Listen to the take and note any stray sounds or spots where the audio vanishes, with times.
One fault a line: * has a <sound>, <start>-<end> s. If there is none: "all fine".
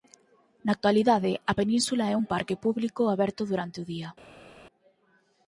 all fine